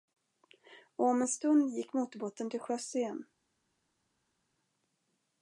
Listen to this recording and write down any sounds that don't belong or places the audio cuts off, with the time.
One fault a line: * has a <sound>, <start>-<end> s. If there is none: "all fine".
all fine